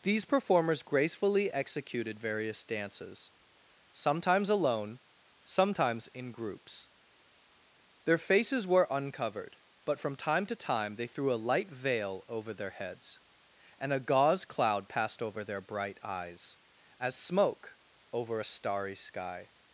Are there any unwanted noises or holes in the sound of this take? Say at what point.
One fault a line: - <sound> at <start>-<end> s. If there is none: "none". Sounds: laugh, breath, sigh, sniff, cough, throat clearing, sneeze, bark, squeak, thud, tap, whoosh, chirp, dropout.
none